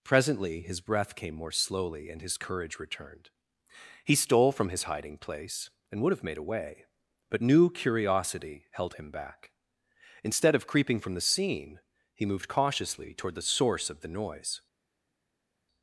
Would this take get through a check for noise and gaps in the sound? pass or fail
pass